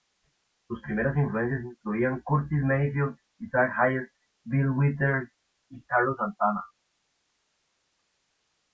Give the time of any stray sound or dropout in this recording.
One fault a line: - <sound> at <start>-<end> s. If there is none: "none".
none